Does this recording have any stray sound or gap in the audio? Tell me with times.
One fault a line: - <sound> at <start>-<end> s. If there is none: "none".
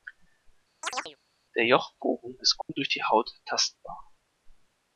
- chirp at 0.8-1.2 s
- dropout at 2.6-2.7 s